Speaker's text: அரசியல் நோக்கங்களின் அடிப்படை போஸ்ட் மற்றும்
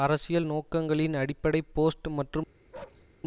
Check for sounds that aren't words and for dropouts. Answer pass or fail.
fail